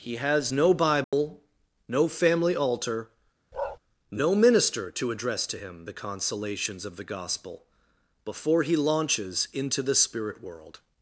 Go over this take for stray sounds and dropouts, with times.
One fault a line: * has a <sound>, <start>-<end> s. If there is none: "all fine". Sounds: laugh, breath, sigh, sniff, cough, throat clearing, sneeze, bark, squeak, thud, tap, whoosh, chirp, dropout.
* has a dropout, 1.0-1.1 s
* has a bark, 3.5-3.8 s